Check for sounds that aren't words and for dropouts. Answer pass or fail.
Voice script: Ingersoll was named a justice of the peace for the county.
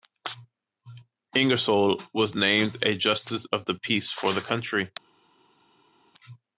pass